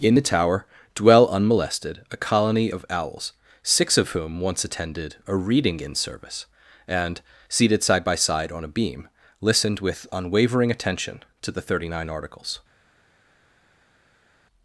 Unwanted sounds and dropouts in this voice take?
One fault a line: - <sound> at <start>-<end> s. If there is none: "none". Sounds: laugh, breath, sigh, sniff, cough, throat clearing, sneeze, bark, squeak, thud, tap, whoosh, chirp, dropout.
none